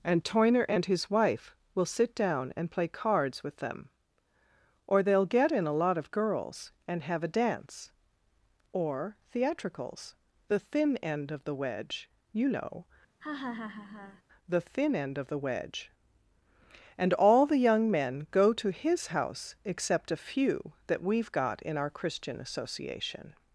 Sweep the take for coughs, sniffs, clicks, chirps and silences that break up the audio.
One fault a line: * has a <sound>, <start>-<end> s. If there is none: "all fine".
* has a laugh, 13.2-14.2 s